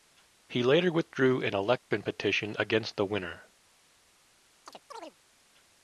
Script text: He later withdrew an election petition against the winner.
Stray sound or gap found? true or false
true